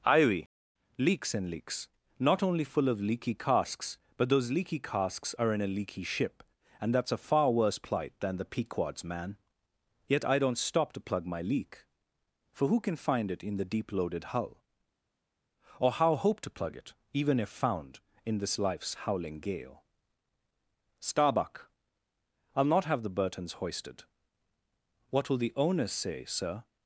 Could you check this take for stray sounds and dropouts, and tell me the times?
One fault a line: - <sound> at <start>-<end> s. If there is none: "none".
none